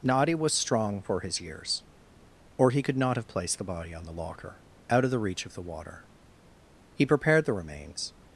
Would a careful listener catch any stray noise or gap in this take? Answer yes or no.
no